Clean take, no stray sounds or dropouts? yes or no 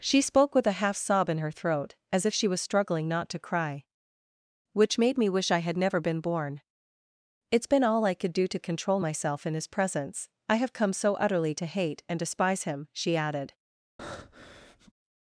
no